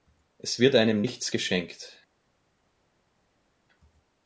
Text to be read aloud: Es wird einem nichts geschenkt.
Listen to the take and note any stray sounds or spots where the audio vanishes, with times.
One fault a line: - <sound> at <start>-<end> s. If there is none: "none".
none